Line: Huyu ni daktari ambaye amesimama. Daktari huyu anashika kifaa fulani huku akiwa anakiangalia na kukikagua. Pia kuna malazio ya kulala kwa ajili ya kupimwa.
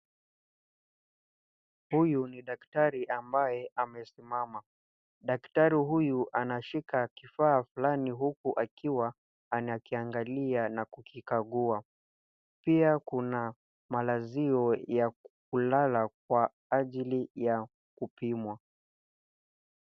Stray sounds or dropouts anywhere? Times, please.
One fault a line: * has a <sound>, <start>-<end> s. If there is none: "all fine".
all fine